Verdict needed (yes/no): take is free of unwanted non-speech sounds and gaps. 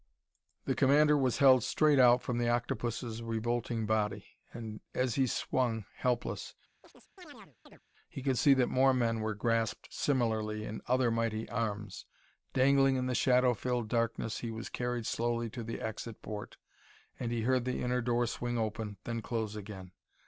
no